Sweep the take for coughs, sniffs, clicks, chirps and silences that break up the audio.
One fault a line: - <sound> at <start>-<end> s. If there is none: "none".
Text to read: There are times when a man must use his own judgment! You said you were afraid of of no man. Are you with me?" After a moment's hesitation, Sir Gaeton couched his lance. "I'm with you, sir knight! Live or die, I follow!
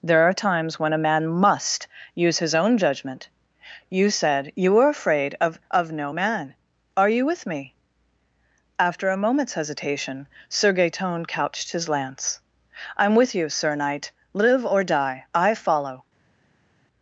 none